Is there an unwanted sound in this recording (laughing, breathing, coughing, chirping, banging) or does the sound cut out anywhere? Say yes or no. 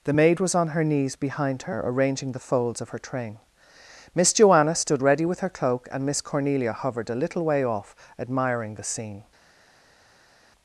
no